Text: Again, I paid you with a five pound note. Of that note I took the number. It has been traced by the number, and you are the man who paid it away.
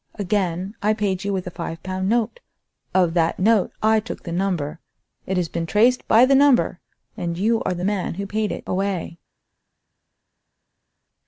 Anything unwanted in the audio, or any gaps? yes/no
no